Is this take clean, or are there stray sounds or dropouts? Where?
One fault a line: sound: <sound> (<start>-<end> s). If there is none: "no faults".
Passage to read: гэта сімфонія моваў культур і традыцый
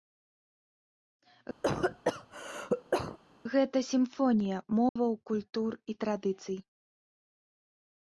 sound: cough (1.6-3.2 s)
sound: dropout (4.9-5.0 s)